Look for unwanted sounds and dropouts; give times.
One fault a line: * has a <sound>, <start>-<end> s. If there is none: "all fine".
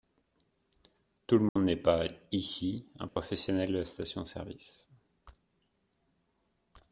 * has a dropout, 1.5-1.6 s
* has a dropout, 3.1-3.2 s